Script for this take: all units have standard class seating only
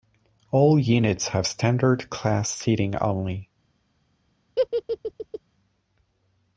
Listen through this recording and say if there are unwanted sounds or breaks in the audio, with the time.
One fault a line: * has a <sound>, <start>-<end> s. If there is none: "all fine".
* has a laugh, 4.6-5.4 s